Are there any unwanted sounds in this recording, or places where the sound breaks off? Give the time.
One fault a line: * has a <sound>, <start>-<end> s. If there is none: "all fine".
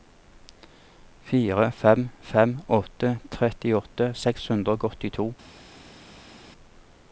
all fine